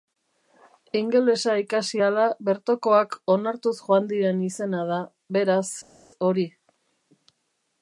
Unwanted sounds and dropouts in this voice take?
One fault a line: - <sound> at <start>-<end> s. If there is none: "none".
none